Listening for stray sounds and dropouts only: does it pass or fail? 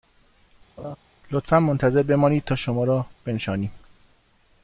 fail